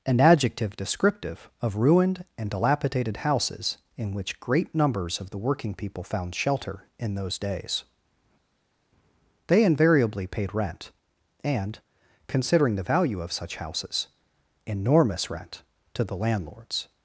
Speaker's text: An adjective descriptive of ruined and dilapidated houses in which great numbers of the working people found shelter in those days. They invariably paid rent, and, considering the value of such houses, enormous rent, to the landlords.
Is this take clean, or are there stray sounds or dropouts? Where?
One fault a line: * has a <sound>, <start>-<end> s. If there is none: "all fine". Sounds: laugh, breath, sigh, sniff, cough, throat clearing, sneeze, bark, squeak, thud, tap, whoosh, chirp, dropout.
all fine